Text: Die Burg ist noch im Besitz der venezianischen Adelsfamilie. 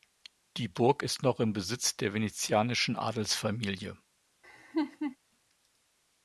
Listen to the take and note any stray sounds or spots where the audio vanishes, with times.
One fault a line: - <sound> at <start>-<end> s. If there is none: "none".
- laugh at 4.4-5.2 s